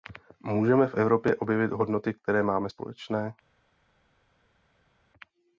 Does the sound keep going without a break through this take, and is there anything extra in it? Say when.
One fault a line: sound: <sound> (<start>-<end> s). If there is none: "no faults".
no faults